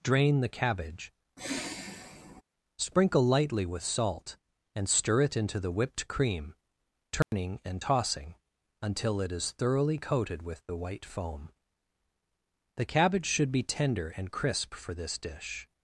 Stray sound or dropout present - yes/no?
yes